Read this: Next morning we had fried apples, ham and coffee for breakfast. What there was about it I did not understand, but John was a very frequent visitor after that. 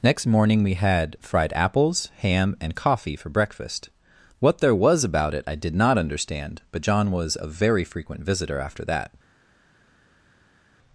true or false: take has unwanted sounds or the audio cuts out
false